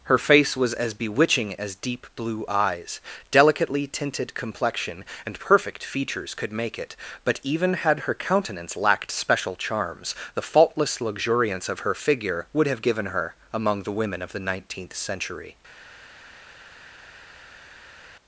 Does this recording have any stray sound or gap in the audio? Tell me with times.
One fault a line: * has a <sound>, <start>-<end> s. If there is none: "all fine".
all fine